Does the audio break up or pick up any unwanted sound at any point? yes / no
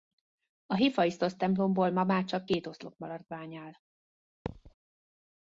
yes